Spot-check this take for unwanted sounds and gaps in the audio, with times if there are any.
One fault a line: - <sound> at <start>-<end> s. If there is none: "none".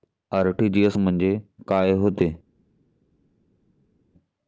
none